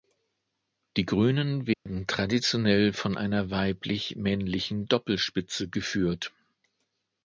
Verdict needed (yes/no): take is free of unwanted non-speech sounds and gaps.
no